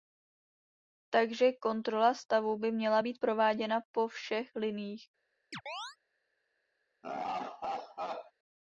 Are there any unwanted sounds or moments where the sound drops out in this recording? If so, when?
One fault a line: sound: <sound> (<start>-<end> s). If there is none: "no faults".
sound: chirp (5.5-6.0 s)
sound: laugh (7.0-8.3 s)